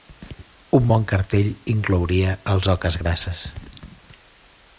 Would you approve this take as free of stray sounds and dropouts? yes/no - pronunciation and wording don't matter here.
yes